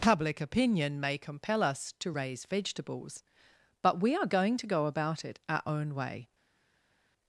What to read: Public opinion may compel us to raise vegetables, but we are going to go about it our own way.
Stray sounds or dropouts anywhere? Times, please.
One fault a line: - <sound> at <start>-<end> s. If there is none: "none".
none